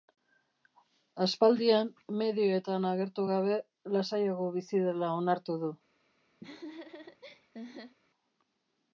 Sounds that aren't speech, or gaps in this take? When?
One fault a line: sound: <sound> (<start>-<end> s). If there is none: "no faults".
sound: laugh (6.4-8.0 s)